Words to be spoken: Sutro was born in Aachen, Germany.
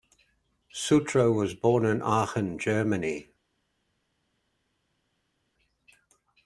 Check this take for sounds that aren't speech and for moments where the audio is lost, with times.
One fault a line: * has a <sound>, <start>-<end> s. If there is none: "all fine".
all fine